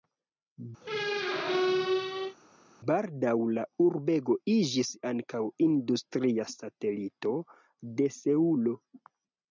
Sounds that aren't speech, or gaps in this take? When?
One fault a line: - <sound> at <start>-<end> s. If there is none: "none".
- squeak at 0.8-2.4 s